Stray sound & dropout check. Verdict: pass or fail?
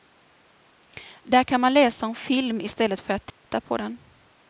fail